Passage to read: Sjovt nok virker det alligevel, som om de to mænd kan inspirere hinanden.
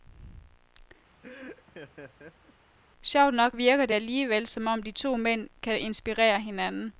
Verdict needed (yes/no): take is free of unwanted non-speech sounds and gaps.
no